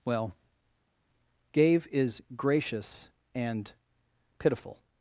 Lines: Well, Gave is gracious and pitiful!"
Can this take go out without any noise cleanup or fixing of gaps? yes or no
yes